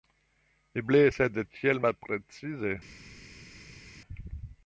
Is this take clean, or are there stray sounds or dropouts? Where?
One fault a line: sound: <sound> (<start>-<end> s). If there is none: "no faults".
no faults